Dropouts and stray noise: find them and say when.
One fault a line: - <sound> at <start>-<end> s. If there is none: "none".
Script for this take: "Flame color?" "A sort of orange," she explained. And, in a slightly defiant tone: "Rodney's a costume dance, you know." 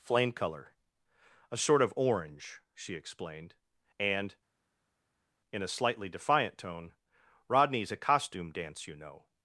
none